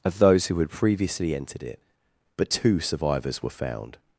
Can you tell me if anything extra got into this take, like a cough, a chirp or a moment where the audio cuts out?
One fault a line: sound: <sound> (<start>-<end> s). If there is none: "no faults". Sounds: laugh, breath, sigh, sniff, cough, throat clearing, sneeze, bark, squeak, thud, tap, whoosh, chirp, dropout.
no faults